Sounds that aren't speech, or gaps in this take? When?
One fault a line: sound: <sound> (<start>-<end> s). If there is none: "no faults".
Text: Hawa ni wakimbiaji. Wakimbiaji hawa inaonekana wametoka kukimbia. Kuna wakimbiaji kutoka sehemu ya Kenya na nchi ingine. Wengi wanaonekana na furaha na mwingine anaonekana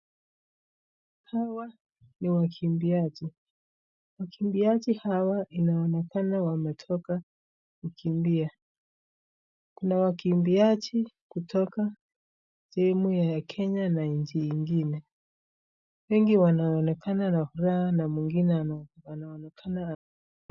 no faults